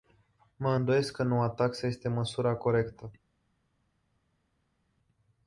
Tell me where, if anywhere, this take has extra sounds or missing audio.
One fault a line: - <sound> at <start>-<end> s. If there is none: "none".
none